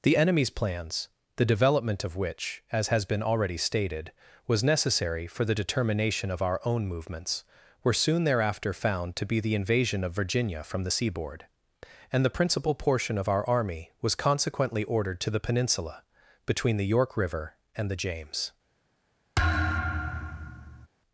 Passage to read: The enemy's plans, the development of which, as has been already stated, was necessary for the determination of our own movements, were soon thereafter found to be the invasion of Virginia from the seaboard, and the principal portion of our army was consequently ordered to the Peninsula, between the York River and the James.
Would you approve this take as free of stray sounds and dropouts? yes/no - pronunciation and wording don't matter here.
no